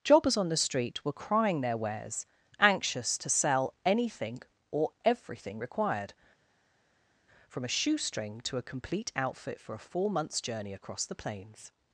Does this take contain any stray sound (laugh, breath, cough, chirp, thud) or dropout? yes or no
no